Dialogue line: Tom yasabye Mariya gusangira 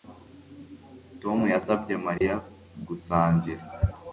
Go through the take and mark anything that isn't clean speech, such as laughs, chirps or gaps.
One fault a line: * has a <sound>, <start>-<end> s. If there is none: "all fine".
* has a dropout, 2.2-2.2 s